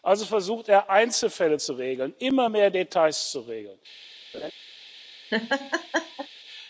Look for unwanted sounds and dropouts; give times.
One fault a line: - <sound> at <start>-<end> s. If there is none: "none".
- laugh at 4.3-4.5 s
- laugh at 5.3-6.3 s